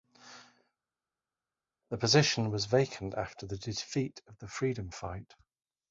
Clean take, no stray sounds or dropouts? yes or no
yes